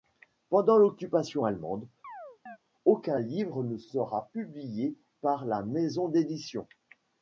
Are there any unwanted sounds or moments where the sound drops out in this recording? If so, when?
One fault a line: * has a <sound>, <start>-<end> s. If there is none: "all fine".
* has a chirp, 2.0-2.6 s